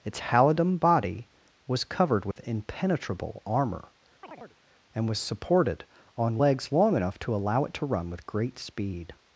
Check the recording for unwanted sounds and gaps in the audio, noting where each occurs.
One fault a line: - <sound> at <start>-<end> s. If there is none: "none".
- dropout at 2.3-2.4 s
- chirp at 4.2-4.6 s